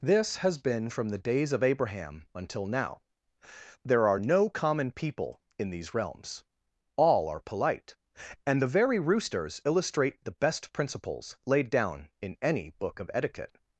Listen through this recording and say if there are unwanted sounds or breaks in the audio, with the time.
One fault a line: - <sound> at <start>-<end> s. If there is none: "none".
none